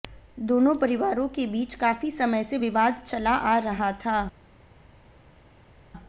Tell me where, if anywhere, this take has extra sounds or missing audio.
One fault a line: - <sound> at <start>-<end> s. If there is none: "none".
none